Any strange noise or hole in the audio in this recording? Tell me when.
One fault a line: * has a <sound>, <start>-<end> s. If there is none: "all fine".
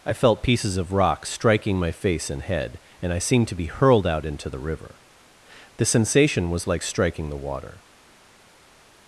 all fine